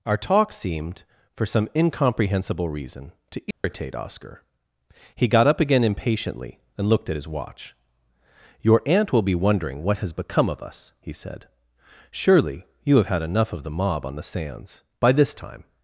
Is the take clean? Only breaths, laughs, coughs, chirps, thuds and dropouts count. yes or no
no